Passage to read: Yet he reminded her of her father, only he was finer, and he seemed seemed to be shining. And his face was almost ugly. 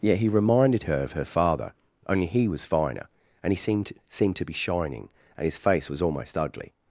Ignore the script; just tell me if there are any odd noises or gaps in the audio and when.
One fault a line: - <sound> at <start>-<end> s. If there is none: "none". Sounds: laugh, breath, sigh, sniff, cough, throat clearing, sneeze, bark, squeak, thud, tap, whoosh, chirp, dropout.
none